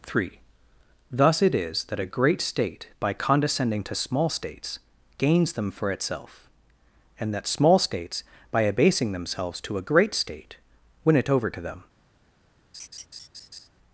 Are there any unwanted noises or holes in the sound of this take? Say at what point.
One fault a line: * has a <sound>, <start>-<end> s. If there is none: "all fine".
* has a laugh, 12.7-13.7 s